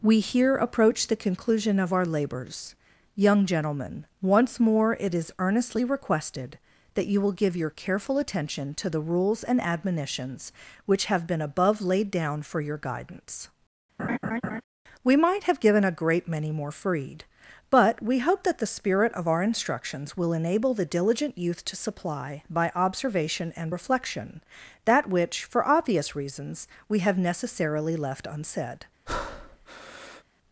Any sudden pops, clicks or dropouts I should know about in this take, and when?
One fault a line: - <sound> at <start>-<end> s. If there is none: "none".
- laugh at 14.0-14.6 s
- breath at 29.1-30.2 s